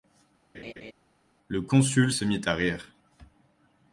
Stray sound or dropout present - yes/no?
yes